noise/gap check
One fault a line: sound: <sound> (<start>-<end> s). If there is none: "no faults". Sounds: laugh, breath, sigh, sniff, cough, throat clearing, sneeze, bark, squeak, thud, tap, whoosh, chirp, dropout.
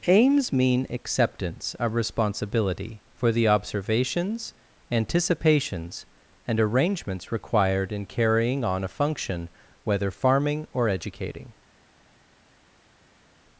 no faults